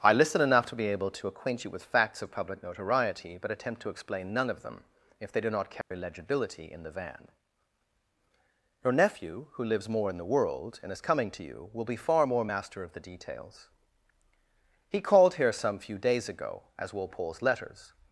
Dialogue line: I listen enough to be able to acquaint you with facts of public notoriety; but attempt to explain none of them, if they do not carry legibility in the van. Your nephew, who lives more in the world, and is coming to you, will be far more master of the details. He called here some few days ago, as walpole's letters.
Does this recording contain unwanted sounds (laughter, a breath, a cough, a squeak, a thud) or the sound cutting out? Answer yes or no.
yes